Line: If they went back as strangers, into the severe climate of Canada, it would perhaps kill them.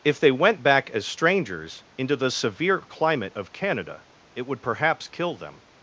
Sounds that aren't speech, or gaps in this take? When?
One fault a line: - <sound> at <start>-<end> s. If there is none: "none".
none